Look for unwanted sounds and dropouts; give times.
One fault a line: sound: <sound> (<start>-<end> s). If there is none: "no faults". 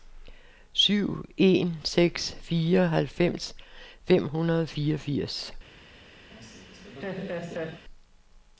sound: laugh (6.3-7.8 s)